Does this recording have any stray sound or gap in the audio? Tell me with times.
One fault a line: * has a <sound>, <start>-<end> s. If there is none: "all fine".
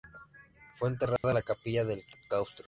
* has a dropout, 1.2-1.2 s